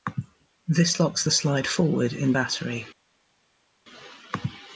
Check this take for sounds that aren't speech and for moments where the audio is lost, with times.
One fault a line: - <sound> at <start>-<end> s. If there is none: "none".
none